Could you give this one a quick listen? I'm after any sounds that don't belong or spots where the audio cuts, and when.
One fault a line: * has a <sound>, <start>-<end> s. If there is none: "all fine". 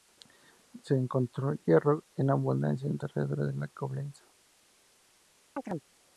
* has a chirp, 5.6-5.9 s